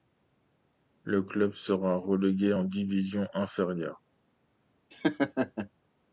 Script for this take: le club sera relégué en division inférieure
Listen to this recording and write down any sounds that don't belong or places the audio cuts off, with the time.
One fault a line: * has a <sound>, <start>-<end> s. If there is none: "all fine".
* has a laugh, 4.9-5.7 s